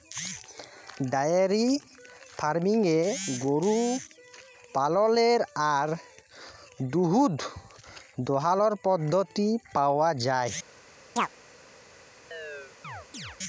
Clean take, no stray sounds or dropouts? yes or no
no